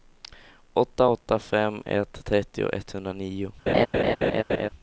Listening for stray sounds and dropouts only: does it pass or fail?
fail